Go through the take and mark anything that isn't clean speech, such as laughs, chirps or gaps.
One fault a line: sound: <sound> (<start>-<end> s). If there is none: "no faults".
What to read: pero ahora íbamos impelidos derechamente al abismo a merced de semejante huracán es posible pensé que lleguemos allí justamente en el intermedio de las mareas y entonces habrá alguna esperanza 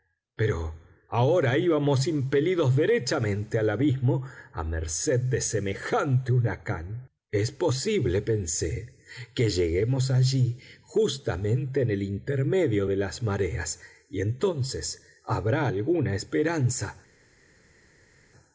no faults